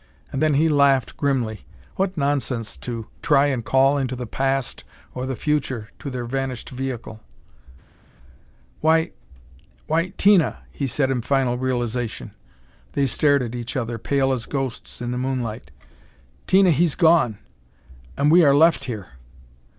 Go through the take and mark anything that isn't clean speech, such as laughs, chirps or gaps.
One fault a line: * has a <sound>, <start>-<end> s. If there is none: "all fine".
all fine